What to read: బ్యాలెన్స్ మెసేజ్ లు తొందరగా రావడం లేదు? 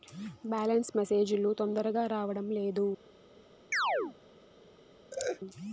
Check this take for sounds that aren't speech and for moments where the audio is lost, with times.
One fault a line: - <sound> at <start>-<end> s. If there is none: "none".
- chirp at 3.7-4.2 s
- laugh at 5.1-5.4 s